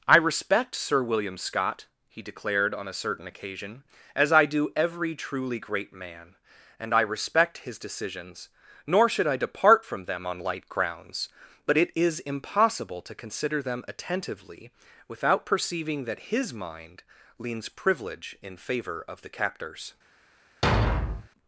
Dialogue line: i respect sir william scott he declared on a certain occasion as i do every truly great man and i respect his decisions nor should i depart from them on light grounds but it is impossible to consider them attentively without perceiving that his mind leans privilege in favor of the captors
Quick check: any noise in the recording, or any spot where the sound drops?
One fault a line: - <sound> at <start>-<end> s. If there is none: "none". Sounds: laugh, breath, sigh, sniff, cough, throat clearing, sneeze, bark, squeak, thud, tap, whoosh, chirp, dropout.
- thud at 20.6-21.3 s